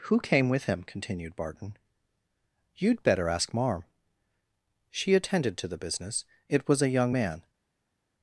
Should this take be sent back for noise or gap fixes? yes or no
no